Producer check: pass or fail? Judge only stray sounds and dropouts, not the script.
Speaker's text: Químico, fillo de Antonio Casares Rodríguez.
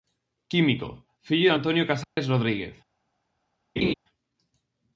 fail